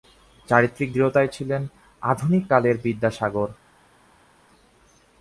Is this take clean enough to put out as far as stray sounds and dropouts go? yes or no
yes